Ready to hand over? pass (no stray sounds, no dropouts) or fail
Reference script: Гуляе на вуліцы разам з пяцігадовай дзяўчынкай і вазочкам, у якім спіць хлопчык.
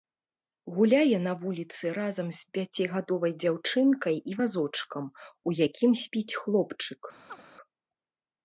fail